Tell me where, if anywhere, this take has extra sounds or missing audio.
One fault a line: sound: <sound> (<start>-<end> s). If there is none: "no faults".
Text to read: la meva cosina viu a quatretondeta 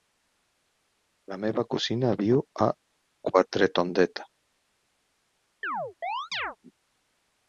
sound: chirp (5.6-6.6 s)